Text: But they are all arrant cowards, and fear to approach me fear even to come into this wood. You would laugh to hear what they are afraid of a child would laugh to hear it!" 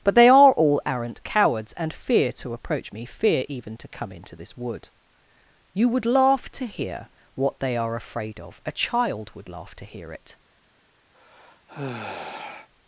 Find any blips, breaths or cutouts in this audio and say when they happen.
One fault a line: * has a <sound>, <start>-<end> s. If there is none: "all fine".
* has a sigh, 11.1-12.7 s